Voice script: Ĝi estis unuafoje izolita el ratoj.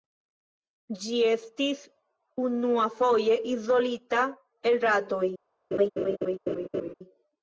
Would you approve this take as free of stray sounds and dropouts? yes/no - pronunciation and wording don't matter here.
no